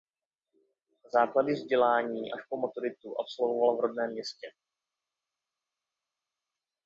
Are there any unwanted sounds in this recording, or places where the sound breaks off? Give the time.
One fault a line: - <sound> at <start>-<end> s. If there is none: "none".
none